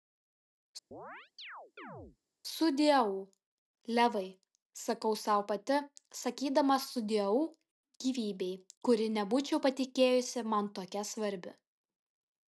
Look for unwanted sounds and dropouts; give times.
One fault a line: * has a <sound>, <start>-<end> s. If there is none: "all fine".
* has a chirp, 0.9-2.2 s